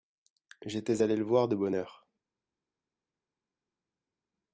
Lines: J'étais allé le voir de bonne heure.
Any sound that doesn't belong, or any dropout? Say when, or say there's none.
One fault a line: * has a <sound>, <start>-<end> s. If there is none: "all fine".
all fine